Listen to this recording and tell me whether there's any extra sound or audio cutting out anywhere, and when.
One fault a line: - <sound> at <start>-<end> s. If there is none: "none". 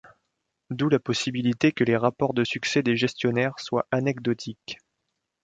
none